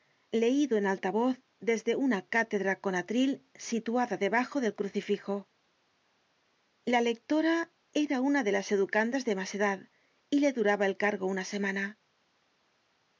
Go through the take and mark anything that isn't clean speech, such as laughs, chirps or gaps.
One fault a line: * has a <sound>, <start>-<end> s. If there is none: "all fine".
all fine